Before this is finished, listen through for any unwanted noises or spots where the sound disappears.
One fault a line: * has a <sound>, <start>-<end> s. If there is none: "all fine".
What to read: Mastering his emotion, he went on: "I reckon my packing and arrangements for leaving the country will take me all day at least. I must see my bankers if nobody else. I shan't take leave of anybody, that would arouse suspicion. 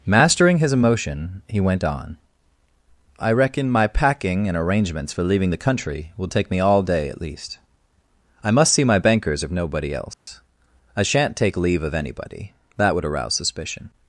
* has a dropout, 10.1-10.3 s